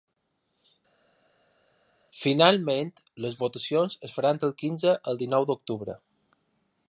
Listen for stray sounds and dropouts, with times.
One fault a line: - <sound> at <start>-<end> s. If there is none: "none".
none